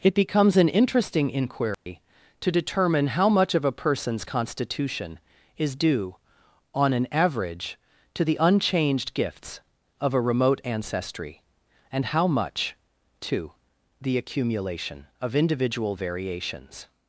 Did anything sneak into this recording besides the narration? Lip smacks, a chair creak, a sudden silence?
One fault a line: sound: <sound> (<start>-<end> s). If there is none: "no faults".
sound: dropout (1.7-1.9 s)